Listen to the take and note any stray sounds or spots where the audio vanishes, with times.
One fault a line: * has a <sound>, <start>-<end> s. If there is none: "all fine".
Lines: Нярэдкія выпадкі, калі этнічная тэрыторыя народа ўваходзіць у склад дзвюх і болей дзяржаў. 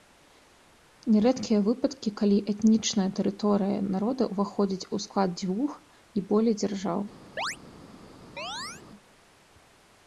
* has a chirp, 7.4-7.6 s
* has a chirp, 8.4-8.8 s